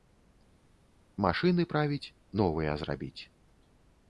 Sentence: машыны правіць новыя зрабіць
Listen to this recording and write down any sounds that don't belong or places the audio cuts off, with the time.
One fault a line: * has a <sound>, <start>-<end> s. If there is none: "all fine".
all fine